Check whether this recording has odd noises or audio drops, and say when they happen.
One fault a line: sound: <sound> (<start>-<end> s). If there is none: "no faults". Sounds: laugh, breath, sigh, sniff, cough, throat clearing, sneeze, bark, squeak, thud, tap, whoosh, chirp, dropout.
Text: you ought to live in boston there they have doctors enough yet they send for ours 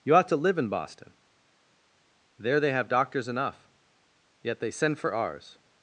no faults